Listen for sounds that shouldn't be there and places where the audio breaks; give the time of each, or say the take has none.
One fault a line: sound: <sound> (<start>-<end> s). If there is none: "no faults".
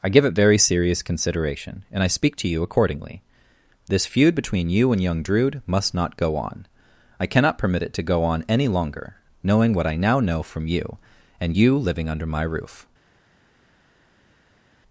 no faults